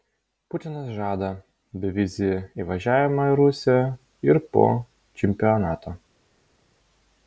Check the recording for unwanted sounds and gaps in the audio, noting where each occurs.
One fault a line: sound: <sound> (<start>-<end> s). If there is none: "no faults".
no faults